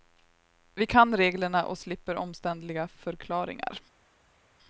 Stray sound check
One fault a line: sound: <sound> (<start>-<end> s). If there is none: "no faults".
no faults